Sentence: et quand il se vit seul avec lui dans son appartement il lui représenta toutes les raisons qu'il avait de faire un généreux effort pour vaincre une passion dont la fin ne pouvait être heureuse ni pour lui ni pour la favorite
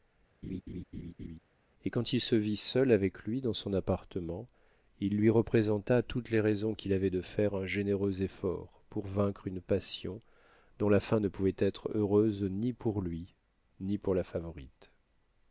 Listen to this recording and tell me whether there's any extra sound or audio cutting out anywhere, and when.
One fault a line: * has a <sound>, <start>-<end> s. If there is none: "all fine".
* has a laugh, 0.4-1.4 s